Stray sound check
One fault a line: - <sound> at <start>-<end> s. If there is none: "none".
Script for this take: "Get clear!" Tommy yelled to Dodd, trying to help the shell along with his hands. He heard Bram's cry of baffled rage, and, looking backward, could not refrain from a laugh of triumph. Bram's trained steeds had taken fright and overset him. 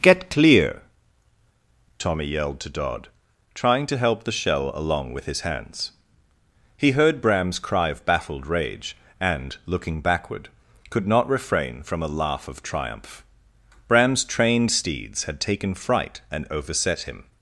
none